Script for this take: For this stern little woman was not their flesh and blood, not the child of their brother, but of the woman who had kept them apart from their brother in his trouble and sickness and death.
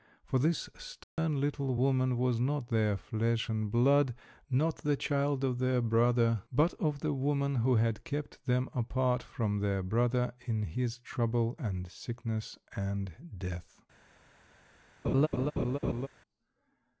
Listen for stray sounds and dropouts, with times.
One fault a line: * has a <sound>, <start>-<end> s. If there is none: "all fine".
* has a dropout, 1.0-1.2 s
* has a laugh, 15.0-16.1 s